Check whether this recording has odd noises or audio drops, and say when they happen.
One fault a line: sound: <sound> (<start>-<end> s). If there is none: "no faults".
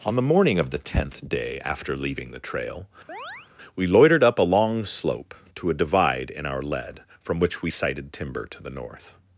sound: chirp (3.1-3.5 s)